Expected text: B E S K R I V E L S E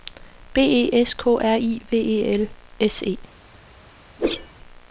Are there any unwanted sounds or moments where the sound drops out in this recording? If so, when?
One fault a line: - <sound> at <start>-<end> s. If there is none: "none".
- whoosh at 4.2-4.5 s